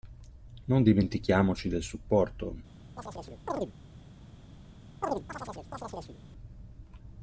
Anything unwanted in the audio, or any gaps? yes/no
yes